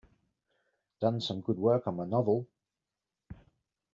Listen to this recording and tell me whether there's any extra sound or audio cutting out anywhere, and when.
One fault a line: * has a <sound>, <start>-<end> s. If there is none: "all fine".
all fine